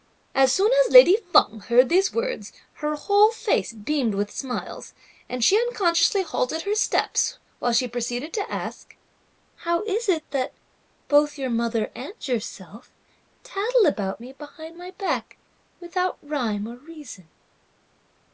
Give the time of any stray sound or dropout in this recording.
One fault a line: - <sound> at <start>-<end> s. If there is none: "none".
none